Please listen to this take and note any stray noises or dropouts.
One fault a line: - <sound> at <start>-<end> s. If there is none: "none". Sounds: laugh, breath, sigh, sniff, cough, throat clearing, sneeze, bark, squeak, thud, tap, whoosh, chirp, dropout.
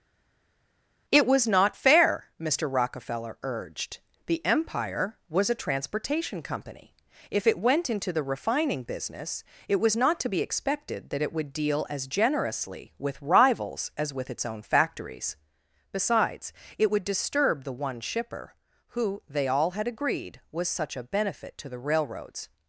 none